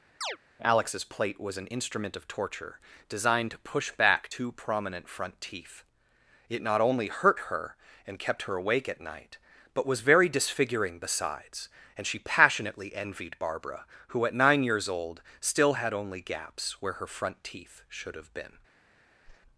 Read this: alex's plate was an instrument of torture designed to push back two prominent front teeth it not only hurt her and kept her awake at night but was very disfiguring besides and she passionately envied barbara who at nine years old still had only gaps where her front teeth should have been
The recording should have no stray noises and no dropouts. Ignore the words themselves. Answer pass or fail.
fail